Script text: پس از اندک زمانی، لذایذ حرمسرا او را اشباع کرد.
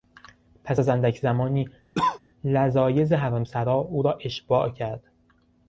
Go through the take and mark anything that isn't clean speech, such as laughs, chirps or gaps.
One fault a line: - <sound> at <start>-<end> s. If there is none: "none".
- cough at 1.9-2.2 s